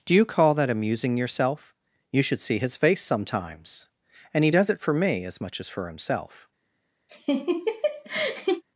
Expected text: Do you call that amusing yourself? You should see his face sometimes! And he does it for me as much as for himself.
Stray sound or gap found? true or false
true